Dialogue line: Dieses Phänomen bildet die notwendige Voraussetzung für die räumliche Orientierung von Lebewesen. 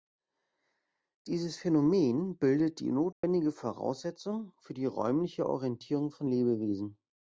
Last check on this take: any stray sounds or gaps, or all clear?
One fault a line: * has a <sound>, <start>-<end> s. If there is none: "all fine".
* has a dropout, 3.1-3.2 s